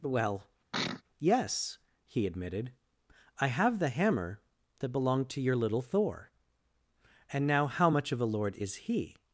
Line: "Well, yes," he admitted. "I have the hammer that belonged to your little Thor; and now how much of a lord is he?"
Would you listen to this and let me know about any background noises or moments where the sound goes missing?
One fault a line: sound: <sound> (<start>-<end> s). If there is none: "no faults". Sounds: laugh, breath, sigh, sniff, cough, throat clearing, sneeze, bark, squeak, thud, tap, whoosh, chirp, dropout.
sound: sneeze (0.7-1.0 s)